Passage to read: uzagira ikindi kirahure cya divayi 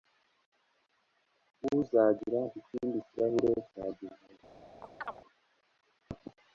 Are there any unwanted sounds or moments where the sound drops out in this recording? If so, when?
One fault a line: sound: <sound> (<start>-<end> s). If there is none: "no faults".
sound: chirp (4.8-5.2 s)